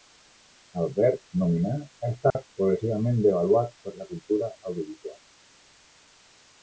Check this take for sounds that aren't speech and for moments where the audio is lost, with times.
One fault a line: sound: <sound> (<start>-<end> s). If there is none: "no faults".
sound: dropout (2.3-2.4 s)